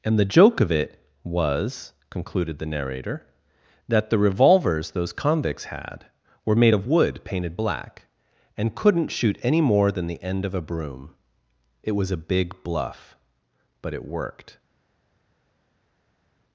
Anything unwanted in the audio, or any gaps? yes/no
no